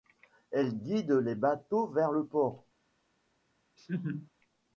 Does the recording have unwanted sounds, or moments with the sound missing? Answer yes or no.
yes